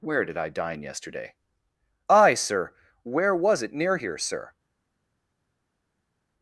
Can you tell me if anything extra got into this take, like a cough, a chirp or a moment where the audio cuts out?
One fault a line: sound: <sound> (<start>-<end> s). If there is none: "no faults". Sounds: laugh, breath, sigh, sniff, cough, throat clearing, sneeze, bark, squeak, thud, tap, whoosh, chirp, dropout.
no faults